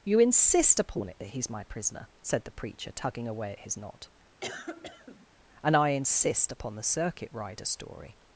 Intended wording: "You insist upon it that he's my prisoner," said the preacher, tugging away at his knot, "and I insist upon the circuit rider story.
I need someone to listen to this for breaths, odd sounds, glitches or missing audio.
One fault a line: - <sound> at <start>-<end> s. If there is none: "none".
- cough at 4.4-5.3 s